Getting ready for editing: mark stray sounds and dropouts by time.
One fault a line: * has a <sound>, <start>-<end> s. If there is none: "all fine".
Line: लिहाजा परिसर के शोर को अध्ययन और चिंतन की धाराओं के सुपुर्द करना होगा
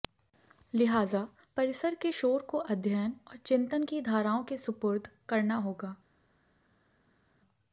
all fine